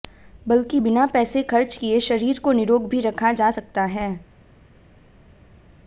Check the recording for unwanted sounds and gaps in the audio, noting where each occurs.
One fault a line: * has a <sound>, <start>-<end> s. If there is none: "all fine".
all fine